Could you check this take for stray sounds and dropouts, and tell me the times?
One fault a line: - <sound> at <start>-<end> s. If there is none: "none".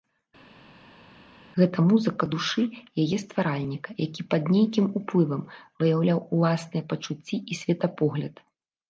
none